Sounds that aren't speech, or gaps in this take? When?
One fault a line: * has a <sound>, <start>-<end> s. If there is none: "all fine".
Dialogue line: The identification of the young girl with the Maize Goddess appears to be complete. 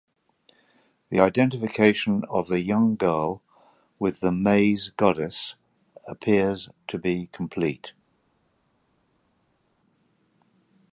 all fine